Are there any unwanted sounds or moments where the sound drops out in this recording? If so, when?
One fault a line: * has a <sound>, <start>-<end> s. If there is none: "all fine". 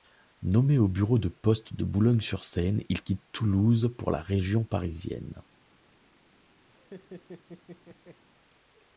* has a laugh, 6.7-8.2 s